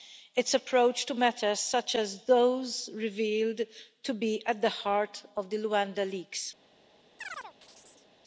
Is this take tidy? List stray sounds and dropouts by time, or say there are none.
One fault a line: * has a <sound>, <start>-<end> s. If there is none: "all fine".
* has a chirp, 7.2-8.1 s